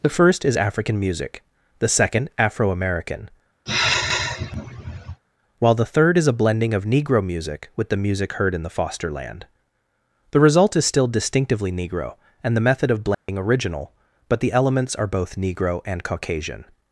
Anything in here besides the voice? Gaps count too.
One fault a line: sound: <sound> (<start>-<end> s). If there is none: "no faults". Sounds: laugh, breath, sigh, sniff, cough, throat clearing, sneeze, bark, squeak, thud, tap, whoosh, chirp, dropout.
sound: sigh (3.7-5.2 s)
sound: dropout (13.1-13.3 s)